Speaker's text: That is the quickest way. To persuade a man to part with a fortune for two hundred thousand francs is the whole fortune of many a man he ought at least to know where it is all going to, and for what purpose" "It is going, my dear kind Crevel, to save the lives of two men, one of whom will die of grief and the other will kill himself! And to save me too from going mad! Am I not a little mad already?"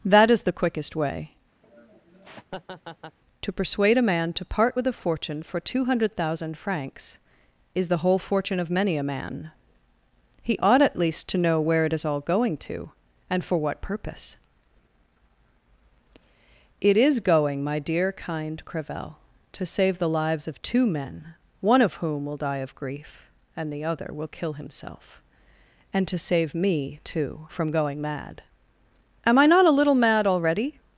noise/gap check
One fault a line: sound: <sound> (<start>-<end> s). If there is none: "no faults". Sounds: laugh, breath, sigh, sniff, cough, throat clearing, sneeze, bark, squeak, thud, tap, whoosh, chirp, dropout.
sound: laugh (1.6-3.2 s)